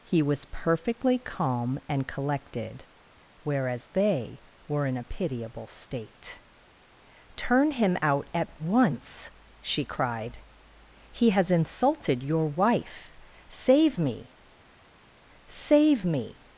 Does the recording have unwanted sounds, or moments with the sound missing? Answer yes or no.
no